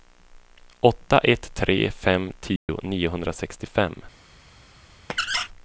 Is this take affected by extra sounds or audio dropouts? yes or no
yes